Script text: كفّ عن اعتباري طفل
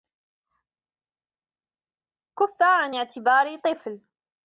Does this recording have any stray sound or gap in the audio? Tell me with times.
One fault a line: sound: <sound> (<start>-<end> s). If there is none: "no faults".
no faults